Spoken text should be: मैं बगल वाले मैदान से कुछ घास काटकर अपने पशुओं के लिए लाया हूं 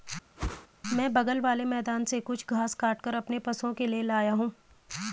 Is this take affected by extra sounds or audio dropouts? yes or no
yes